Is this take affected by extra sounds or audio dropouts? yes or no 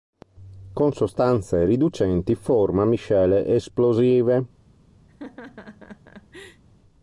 yes